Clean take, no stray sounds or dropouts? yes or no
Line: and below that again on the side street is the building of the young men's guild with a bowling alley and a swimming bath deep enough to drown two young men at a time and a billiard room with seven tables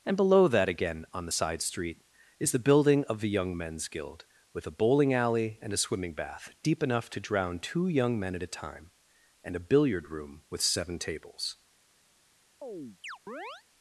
no